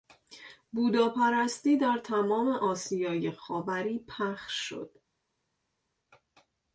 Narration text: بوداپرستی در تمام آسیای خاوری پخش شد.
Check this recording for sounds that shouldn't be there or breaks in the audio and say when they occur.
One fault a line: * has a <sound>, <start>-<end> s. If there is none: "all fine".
all fine